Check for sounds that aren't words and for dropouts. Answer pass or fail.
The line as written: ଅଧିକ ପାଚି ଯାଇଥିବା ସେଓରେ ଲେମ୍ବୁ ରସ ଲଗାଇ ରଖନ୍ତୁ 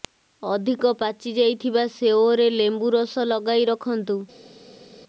pass